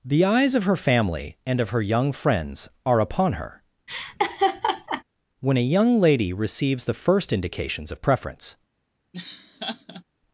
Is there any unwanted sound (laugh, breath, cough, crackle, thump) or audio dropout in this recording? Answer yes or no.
yes